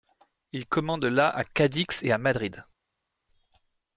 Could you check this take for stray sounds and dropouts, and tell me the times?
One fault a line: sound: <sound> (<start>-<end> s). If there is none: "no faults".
no faults